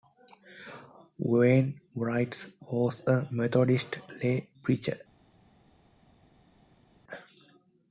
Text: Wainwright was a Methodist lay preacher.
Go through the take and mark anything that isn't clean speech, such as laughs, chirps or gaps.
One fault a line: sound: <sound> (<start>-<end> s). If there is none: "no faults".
no faults